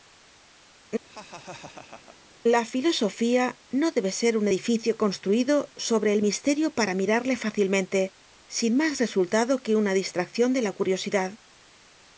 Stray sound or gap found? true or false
true